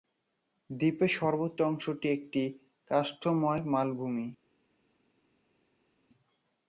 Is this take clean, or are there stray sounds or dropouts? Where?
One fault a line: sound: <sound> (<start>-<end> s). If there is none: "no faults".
no faults